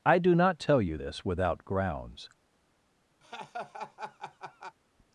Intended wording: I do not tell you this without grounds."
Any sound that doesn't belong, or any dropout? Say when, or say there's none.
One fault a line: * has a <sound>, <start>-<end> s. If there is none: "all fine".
* has a laugh, 3.2-4.8 s